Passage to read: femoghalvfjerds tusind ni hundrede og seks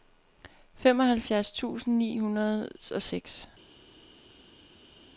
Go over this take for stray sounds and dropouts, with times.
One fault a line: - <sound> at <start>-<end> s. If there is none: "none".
none